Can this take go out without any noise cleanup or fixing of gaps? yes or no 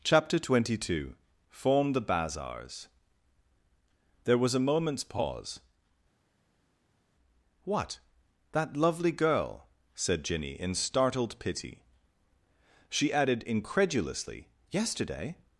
yes